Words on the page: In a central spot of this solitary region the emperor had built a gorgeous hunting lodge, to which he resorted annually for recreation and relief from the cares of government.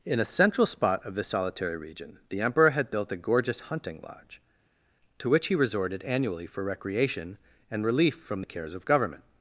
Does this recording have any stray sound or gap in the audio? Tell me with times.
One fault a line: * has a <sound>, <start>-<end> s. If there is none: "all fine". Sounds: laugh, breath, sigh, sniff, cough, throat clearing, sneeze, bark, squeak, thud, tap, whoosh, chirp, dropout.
all fine